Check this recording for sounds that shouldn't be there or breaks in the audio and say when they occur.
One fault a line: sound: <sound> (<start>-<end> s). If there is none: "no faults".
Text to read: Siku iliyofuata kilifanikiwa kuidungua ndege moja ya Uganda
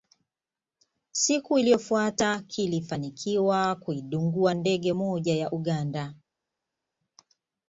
no faults